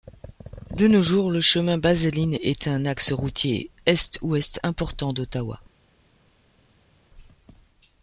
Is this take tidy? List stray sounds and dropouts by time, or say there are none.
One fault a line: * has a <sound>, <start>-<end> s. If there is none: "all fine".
all fine